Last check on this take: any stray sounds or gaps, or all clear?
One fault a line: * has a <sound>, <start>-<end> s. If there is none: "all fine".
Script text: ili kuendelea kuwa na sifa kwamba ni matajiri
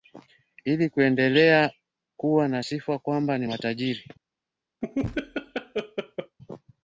* has a laugh, 4.8-6.4 s